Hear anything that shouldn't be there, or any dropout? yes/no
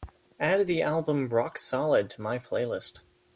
no